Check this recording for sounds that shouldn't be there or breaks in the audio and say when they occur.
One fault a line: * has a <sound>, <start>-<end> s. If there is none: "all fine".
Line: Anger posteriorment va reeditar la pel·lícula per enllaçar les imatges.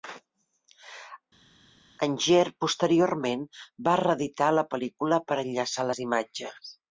all fine